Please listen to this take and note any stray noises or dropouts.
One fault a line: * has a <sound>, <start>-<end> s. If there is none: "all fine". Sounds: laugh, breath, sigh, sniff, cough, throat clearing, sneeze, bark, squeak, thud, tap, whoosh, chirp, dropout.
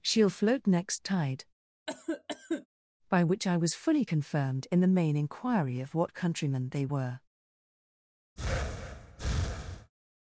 * has a cough, 1.9-2.7 s
* has a breath, 8.4-9.9 s